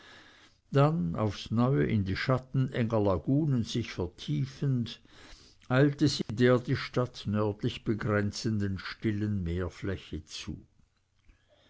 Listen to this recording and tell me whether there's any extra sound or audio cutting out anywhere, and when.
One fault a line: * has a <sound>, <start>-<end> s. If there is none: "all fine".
* has a dropout, 6.2-6.3 s